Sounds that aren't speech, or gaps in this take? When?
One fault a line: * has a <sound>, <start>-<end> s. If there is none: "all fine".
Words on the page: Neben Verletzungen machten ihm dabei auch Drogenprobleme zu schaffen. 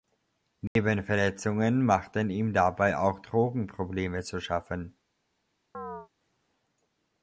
* has a dropout, 0.7-0.8 s
* has a chirp, 5.7-6.1 s